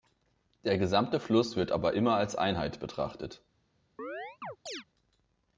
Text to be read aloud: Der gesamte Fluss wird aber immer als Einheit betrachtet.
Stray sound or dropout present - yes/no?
yes